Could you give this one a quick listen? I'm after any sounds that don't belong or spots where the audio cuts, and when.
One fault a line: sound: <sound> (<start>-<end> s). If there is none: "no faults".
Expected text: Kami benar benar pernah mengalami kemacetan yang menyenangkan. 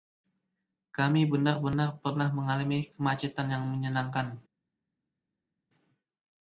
no faults